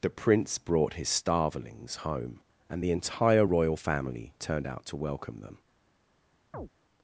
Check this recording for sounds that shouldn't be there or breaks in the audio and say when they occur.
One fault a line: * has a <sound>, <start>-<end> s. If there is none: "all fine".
* has a chirp, 6.5-6.7 s